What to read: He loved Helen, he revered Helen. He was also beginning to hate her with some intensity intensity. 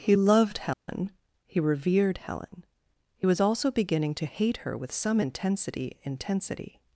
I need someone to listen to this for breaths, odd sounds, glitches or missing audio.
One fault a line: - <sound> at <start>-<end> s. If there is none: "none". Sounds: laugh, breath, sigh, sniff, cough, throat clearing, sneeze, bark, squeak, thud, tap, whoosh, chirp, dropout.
- dropout at 0.7-0.9 s